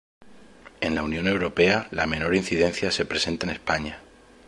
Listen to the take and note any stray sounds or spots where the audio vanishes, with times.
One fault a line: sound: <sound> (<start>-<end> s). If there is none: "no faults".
no faults